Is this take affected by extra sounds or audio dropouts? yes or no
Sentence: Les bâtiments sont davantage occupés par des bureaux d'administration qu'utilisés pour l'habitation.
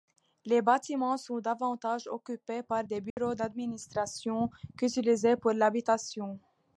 yes